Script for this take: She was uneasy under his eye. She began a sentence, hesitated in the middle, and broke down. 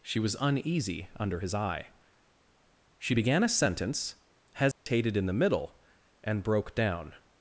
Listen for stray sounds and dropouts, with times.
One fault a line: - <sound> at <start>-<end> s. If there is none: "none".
- dropout at 4.7-4.9 s